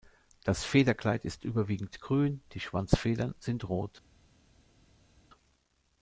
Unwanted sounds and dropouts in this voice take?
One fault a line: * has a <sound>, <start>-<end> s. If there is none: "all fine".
all fine